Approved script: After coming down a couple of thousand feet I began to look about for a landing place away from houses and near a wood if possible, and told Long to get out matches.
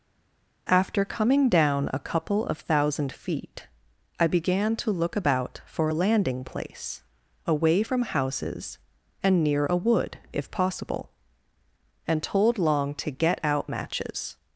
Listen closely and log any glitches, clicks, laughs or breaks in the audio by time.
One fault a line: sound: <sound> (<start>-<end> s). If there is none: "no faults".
no faults